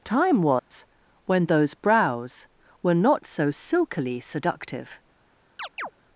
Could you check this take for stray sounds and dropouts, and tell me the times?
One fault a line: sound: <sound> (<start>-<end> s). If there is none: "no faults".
sound: dropout (0.6-0.7 s)
sound: chirp (5.6-5.9 s)